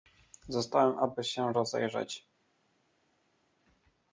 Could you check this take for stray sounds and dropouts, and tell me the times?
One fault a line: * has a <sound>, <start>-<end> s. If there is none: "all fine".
all fine